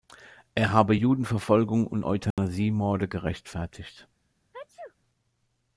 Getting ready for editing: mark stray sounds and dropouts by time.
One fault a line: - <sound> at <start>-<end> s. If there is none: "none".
- dropout at 2.3-2.4 s
- sneeze at 4.5-5.0 s